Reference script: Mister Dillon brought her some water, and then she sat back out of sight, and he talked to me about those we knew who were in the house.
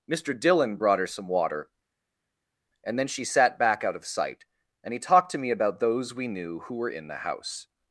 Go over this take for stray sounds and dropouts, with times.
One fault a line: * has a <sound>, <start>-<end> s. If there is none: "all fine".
all fine